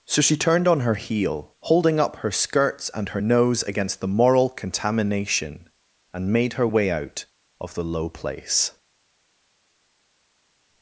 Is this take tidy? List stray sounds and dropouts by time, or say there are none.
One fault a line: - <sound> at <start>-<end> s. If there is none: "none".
none